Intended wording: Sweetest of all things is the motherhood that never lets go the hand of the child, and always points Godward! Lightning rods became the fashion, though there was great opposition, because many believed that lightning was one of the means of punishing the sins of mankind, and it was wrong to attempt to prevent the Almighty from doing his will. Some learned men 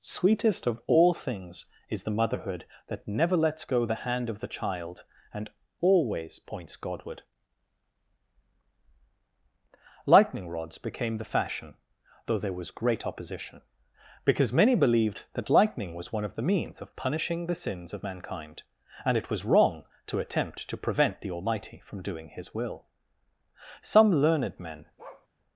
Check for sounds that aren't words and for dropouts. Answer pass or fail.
fail